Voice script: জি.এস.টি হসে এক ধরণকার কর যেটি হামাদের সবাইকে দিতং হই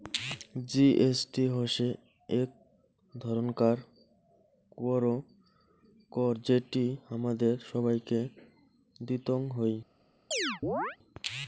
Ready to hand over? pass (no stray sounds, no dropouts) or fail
fail